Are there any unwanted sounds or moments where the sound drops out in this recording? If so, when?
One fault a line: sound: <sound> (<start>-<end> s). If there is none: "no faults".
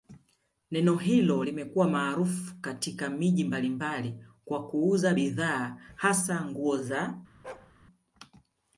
sound: bark (7.4-7.7 s)